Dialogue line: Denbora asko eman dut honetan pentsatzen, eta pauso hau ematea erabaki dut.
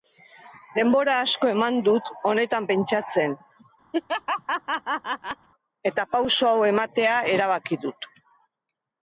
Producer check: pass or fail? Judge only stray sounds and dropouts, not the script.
fail